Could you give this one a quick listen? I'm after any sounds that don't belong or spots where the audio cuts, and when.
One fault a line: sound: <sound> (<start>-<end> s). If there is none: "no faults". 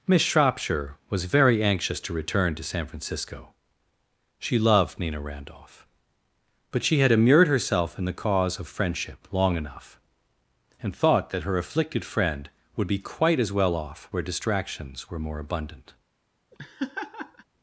sound: laugh (16.5-17.4 s)